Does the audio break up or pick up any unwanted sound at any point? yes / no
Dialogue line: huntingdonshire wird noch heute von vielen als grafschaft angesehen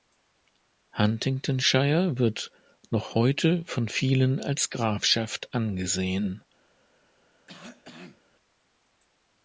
yes